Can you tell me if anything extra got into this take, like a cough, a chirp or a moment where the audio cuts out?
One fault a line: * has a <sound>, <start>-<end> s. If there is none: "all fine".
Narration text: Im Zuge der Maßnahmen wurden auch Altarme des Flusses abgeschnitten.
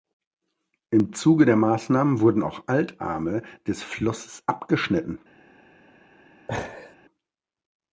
* has a laugh, 6.5-7.0 s